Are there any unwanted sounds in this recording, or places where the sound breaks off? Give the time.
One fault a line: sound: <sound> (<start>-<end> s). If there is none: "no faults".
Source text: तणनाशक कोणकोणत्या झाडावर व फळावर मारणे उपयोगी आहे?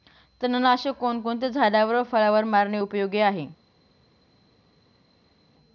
no faults